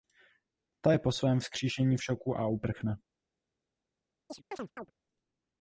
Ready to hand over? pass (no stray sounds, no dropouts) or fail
fail